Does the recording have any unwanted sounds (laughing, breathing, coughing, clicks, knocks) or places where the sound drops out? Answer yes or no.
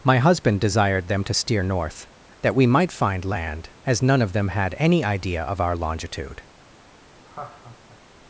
yes